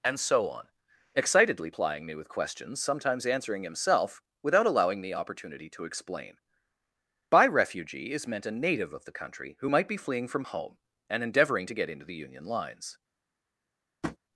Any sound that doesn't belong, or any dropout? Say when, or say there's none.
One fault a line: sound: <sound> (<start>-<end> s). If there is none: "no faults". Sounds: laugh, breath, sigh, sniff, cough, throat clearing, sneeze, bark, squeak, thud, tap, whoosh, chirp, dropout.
sound: tap (14.0-14.2 s)